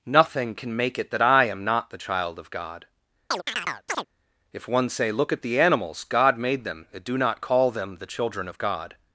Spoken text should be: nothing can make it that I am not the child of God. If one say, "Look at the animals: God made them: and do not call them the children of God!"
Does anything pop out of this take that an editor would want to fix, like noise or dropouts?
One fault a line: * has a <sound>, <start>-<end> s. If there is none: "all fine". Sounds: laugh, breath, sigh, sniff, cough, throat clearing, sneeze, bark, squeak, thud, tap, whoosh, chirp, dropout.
* has a chirp, 3.3-4.1 s